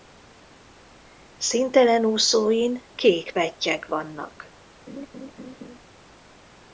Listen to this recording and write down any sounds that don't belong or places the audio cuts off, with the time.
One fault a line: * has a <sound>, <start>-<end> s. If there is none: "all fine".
* has a laugh, 4.9-5.8 s